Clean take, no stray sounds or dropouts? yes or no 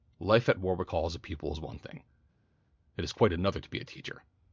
yes